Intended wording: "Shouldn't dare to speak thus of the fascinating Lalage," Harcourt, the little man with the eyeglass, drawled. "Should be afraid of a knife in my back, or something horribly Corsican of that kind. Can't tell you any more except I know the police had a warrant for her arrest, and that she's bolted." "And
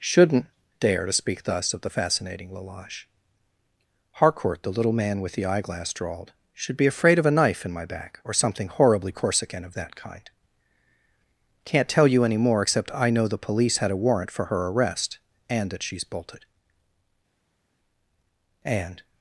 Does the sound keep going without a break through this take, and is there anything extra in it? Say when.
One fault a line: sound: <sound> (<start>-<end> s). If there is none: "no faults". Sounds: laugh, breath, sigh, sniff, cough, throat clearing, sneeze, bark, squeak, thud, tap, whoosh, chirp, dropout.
no faults